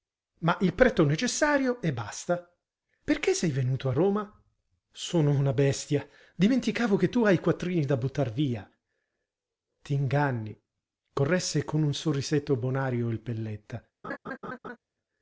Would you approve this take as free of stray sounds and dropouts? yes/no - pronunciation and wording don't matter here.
no